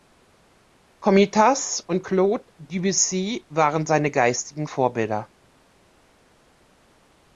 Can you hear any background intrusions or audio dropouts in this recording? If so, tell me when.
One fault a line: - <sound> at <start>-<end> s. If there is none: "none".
none